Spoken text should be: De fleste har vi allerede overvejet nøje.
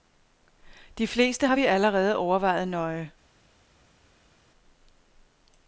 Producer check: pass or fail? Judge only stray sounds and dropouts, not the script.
pass